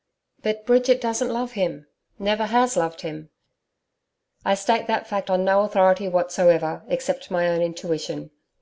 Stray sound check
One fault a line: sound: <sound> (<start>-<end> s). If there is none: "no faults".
no faults